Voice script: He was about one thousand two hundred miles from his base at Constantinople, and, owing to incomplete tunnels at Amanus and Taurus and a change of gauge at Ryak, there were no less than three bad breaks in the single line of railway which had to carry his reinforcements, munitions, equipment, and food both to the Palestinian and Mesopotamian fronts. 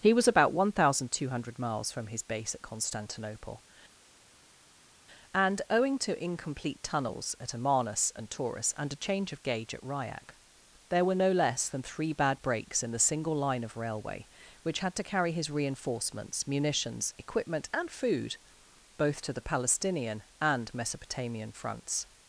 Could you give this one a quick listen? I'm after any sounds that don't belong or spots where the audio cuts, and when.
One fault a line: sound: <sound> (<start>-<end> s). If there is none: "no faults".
no faults